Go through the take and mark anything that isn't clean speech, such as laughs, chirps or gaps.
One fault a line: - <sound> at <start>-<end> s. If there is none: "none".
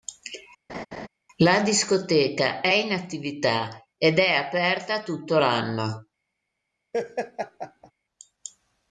- laugh at 0.7-1.1 s
- laugh at 6.9-7.9 s